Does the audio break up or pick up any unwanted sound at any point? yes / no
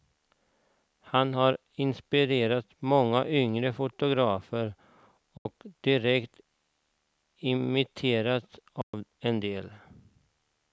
yes